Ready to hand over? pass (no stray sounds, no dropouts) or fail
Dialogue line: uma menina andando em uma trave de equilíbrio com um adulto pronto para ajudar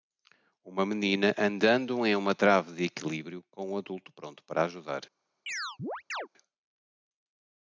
fail